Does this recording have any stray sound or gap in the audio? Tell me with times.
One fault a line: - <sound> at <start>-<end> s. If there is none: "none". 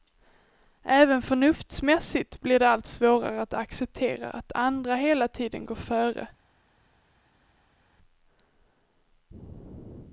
none